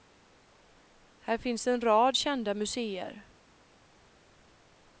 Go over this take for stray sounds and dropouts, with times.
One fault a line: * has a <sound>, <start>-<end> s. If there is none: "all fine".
all fine